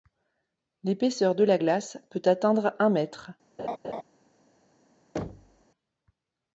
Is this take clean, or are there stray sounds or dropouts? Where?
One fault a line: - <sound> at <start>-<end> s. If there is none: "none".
- laugh at 3.6-4.0 s
- thud at 5.2-5.7 s